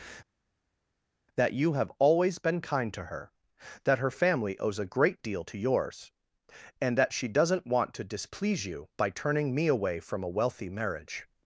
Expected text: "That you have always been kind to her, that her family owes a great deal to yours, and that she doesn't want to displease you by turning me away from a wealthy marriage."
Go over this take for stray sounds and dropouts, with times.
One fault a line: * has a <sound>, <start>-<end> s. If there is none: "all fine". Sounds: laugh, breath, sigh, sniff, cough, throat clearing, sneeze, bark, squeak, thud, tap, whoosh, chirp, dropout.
all fine